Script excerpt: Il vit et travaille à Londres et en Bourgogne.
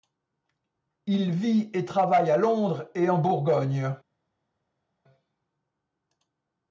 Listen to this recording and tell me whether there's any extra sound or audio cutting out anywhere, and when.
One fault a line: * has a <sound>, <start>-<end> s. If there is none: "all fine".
all fine